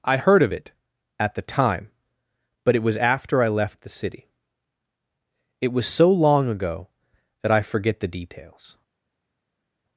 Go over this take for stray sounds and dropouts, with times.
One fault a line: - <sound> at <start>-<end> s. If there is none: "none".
none